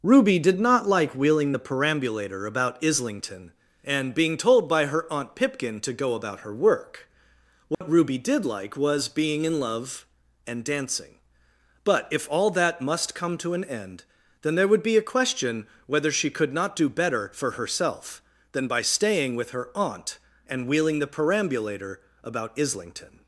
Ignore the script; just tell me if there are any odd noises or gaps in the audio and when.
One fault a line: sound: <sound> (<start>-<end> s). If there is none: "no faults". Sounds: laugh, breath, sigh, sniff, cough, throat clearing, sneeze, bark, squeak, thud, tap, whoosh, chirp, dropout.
sound: dropout (7.7-7.8 s)